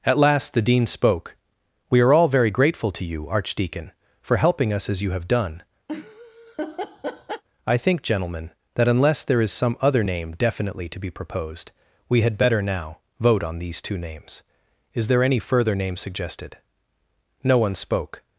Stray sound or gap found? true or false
true